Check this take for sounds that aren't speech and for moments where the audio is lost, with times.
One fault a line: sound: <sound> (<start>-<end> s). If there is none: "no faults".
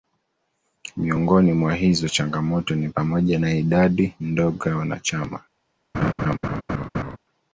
sound: laugh (5.9-7.2 s)